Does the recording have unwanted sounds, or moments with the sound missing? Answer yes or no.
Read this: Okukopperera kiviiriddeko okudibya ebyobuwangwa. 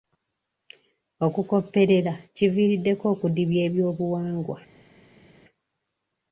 no